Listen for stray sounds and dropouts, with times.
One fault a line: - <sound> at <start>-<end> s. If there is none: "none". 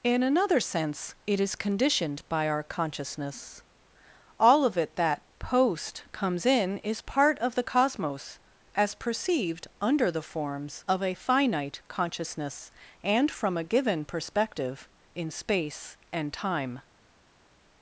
none